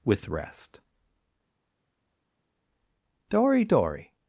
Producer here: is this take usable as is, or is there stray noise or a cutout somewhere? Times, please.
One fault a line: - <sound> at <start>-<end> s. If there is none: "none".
none